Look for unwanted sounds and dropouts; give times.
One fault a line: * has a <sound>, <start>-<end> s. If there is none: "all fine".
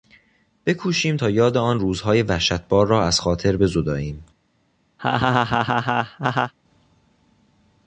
* has a laugh, 5.0-6.5 s